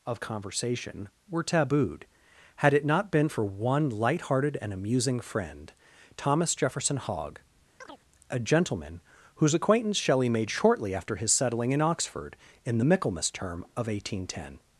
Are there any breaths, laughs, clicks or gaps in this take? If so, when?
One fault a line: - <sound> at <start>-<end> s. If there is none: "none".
- chirp at 7.8-8.0 s